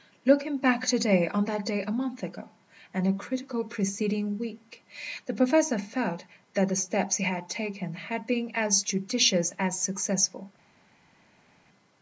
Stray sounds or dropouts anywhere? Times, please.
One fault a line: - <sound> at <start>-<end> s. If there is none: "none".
none